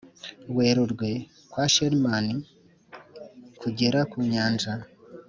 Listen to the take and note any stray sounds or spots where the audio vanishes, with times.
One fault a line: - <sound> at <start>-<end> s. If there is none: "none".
none